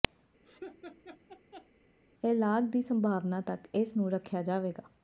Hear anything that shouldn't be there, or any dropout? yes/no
yes